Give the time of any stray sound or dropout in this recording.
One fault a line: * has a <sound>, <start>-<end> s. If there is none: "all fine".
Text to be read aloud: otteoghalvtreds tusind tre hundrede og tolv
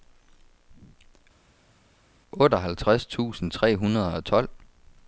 all fine